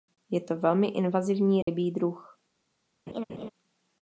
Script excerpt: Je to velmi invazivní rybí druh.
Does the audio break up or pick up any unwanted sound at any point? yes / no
yes